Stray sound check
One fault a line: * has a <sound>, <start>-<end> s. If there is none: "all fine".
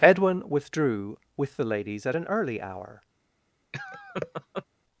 * has a laugh, 3.7-4.6 s